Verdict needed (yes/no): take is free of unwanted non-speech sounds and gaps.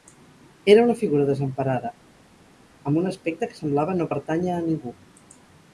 yes